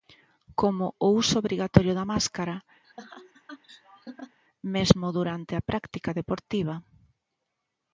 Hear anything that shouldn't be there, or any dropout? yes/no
yes